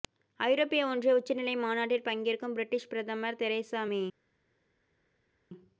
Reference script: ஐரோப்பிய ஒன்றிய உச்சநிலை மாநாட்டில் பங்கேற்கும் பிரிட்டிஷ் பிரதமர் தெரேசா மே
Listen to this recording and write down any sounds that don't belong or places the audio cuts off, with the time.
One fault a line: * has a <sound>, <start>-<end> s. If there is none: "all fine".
all fine